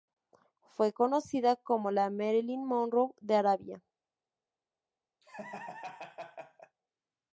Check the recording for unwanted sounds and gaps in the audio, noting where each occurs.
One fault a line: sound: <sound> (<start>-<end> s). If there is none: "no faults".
sound: laugh (5.2-6.8 s)